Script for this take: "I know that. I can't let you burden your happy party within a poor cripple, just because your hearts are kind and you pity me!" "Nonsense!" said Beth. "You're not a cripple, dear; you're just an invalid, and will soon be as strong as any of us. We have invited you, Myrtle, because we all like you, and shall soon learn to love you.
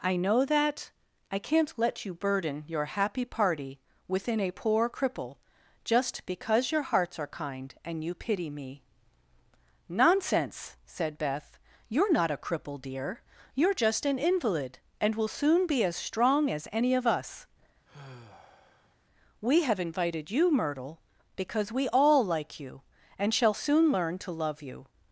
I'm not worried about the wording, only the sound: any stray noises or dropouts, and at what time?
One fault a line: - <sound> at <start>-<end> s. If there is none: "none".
- sigh at 17.9-19.0 s